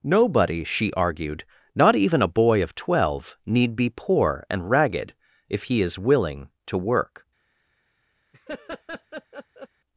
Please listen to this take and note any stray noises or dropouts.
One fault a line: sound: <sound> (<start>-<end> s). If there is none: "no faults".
sound: laugh (8.3-9.7 s)